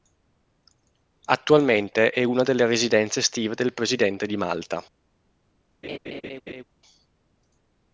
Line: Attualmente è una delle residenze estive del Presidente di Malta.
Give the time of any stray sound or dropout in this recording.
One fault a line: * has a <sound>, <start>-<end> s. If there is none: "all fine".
* has a laugh, 5.8-6.6 s